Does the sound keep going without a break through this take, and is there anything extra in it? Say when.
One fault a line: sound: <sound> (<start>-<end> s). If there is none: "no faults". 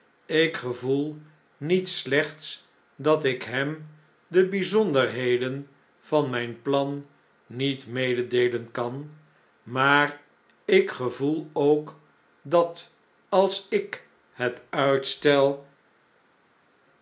no faults